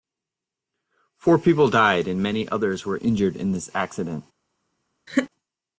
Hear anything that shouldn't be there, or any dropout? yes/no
yes